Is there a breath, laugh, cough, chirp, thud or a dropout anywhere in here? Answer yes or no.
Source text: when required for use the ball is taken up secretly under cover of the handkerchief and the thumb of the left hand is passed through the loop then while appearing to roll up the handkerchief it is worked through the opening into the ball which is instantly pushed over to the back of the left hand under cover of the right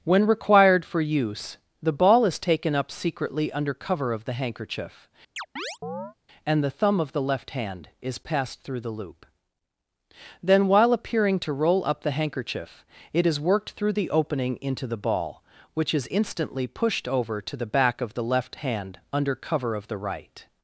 yes